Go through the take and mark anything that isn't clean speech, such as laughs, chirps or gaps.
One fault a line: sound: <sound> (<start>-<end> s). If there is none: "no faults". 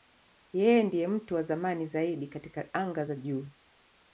no faults